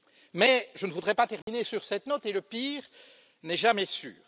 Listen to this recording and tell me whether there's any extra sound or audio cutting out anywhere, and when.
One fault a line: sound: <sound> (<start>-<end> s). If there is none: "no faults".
sound: dropout (1.4-1.5 s)